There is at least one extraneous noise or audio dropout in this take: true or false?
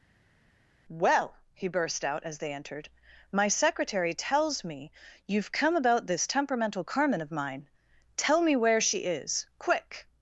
false